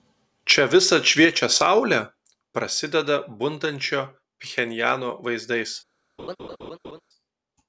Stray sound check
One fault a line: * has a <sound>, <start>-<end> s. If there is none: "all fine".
* has a laugh, 6.2-7.0 s